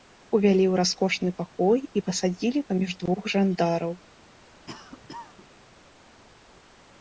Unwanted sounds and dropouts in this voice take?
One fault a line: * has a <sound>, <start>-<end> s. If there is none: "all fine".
* has a cough, 4.7-5.5 s